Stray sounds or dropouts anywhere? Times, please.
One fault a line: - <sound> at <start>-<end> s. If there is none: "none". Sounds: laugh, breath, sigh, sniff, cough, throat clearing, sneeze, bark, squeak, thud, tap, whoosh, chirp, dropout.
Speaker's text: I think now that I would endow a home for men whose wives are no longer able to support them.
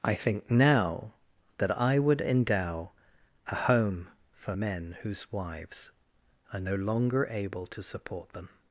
none